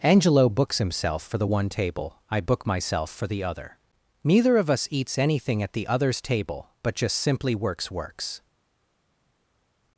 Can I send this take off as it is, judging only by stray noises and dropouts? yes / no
yes